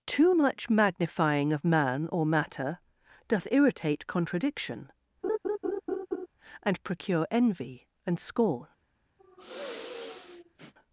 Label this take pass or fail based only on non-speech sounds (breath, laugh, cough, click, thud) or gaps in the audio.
fail